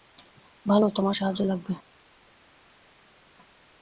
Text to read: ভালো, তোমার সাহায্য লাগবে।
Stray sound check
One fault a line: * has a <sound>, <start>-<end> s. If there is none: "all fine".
all fine